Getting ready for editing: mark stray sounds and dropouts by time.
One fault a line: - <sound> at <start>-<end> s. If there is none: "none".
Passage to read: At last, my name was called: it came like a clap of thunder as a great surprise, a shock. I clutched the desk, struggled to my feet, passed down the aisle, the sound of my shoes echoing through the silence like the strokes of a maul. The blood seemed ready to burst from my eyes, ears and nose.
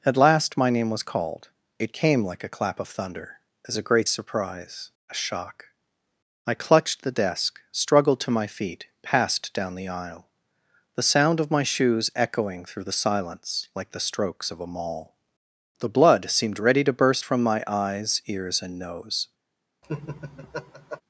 - laugh at 19.8-21.0 s